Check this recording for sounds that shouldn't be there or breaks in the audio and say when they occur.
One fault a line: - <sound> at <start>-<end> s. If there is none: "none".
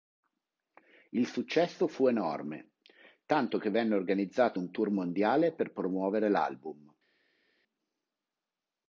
none